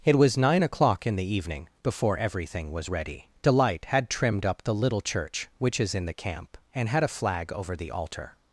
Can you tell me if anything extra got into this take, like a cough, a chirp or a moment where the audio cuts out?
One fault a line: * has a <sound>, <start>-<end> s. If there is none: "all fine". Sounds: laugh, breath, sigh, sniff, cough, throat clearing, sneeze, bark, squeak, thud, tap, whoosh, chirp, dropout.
all fine